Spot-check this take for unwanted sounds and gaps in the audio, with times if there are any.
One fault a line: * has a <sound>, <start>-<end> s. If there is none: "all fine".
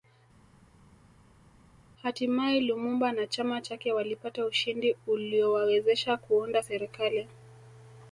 all fine